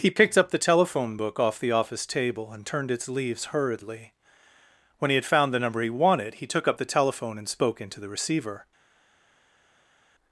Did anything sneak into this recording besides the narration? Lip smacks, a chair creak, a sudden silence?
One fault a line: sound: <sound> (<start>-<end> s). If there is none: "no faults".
no faults